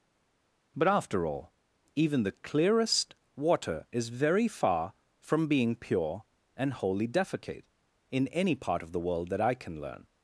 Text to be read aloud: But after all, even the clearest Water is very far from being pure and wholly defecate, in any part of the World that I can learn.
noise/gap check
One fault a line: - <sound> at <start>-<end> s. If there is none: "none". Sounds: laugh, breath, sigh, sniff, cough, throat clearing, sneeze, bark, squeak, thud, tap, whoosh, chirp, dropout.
none